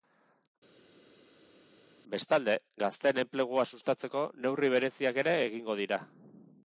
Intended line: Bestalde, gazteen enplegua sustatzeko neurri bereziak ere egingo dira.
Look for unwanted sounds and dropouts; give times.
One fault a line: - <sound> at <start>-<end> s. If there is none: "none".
none